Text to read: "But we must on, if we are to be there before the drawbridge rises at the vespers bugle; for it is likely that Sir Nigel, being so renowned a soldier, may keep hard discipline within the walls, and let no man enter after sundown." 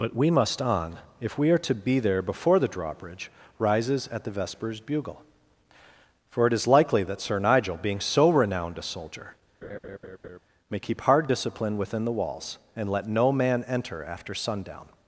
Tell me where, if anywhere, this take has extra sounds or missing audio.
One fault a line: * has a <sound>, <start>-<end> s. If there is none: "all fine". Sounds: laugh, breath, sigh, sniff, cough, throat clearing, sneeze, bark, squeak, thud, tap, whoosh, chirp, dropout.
* has a laugh, 9.6-10.4 s